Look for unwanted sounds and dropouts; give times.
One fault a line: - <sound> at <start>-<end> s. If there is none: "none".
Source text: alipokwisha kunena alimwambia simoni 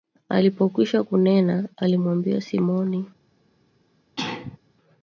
- sneeze at 4.2-4.6 s